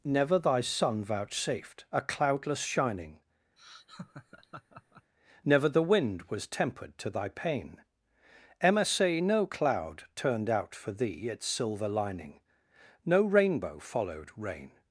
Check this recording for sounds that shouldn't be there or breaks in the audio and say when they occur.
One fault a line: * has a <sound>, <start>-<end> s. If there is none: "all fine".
* has a laugh, 3.6-5.1 s